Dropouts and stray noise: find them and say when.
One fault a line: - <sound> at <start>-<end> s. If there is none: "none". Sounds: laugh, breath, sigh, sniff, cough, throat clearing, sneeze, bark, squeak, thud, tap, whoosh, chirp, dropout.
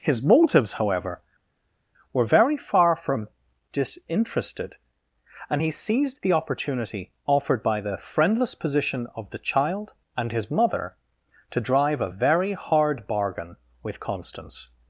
none